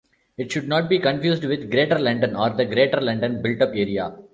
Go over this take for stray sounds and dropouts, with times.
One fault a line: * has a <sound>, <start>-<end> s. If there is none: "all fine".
all fine